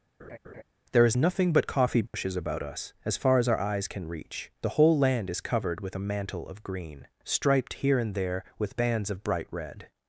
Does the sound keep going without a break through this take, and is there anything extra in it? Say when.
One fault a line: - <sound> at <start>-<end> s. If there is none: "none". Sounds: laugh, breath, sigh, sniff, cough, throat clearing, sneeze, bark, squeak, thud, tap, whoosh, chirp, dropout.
- laugh at 0.2-0.6 s
- dropout at 2.1-2.1 s